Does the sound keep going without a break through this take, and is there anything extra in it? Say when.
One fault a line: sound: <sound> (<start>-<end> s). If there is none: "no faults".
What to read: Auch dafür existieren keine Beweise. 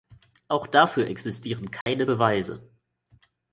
sound: dropout (1.8-1.9 s)